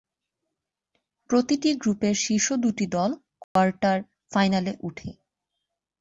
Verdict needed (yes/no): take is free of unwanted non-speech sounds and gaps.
no